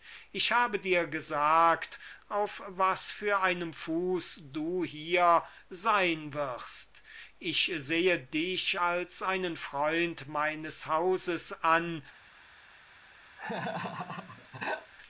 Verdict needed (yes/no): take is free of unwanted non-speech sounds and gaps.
no